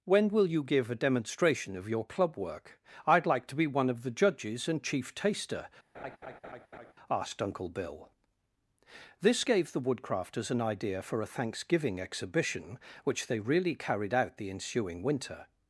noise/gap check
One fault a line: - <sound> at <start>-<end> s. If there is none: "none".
- laugh at 5.9-6.9 s